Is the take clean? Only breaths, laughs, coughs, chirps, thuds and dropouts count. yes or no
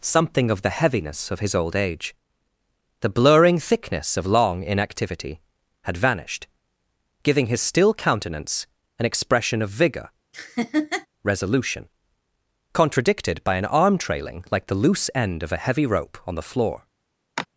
no